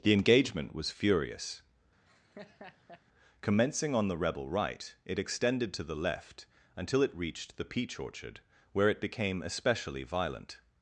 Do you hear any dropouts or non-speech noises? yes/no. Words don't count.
yes